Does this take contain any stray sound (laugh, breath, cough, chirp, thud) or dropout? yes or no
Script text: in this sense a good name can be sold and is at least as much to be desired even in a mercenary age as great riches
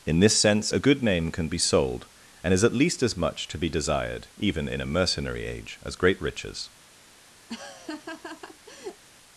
yes